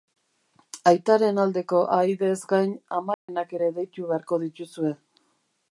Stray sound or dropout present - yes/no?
yes